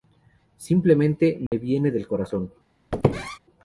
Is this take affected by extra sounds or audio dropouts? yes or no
yes